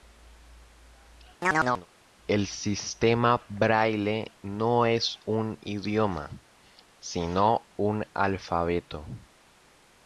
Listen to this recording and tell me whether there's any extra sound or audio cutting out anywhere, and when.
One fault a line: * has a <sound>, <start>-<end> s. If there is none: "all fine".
* has a chirp, 1.4-1.9 s